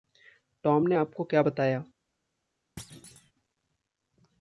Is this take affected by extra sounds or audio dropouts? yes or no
yes